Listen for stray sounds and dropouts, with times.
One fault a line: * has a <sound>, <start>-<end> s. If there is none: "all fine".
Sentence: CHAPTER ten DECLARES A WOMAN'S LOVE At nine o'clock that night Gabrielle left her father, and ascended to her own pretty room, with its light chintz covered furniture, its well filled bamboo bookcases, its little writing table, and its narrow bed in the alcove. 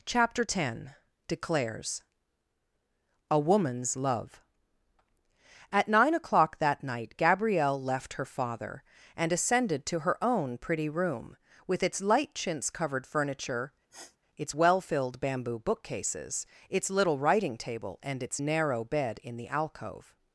* has a sniff, 13.9-14.2 s